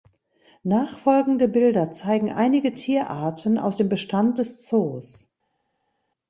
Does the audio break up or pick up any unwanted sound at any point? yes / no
no